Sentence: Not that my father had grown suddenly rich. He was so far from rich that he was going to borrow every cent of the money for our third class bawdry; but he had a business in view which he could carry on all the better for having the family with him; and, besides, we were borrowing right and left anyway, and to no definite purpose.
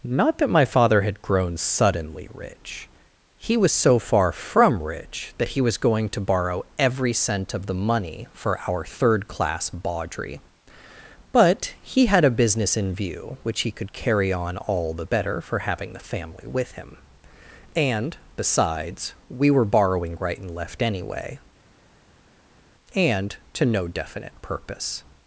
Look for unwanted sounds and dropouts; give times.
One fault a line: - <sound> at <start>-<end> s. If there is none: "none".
none